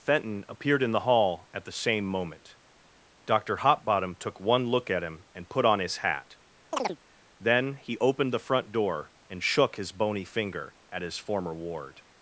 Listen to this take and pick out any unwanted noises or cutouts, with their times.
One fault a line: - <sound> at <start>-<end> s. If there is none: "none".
- chirp at 6.7-7.0 s